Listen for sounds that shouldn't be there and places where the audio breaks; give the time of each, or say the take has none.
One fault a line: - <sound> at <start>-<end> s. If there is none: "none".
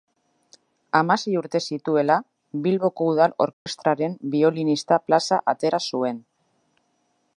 - dropout at 3.5-3.7 s